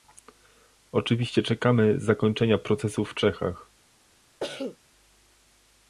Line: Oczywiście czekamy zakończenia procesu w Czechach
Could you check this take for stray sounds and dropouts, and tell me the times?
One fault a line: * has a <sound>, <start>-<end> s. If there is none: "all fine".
* has a cough, 4.4-4.8 s